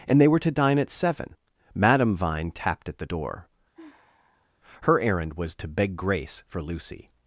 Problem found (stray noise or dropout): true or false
true